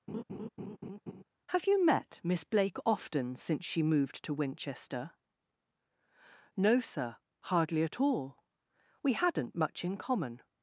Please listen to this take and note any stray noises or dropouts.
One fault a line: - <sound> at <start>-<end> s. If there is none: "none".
- laugh at 0.1-1.2 s